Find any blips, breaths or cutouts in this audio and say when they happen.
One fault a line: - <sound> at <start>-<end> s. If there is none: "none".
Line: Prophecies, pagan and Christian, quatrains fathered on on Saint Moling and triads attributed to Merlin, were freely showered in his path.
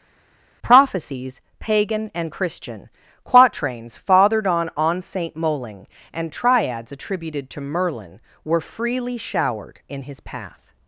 none